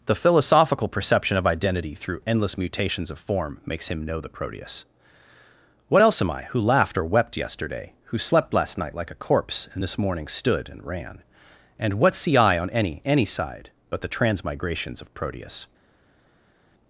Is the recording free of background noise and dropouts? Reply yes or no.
yes